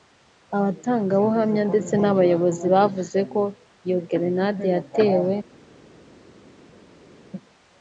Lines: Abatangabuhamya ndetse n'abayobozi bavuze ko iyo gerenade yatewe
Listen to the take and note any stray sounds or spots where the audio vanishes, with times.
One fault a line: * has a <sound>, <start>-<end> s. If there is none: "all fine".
all fine